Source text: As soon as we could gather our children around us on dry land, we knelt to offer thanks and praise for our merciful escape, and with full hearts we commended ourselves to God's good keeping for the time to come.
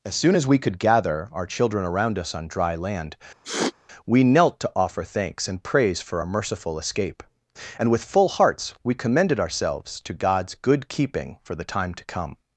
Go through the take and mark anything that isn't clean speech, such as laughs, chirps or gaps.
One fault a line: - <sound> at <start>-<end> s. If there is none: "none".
- sniff at 3.4-3.7 s